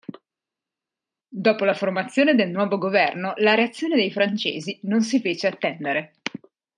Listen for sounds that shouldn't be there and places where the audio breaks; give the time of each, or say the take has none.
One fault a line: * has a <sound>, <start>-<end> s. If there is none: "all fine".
all fine